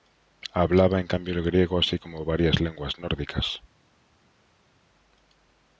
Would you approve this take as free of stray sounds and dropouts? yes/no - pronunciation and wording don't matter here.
yes